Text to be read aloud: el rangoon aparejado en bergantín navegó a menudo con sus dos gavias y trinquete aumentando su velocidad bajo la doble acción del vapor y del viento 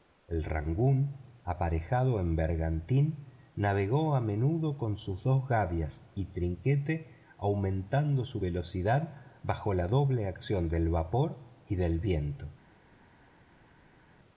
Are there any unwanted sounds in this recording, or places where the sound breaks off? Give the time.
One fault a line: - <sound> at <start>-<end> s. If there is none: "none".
none